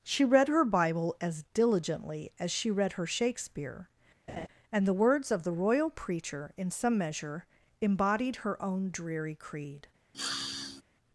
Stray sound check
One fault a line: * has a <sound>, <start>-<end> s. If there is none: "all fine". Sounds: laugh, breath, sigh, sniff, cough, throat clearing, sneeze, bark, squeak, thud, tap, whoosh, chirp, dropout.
* has a laugh, 4.3-4.5 s
* has a sniff, 10.1-10.8 s